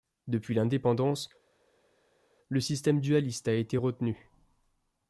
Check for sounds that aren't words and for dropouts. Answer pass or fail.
pass